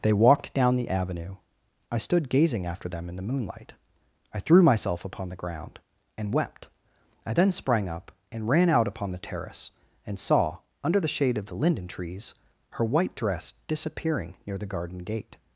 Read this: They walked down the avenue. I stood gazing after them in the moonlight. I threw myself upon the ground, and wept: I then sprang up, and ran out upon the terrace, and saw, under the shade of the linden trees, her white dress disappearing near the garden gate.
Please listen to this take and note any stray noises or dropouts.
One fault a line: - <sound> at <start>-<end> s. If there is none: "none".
none